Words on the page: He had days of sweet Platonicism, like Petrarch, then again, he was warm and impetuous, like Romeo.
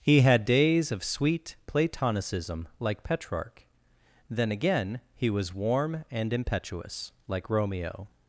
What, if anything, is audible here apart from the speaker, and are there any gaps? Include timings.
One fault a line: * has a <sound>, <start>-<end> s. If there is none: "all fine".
all fine